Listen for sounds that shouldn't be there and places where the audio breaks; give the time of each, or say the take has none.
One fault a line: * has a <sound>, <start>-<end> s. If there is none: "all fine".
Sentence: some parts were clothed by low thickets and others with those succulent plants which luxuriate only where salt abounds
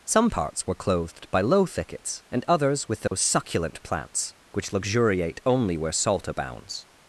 * has a dropout, 3.1-3.1 s